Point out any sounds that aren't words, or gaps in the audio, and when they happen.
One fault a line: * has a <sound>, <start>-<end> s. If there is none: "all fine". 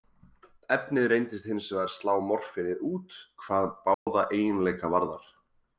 * has a dropout, 3.9-4.1 s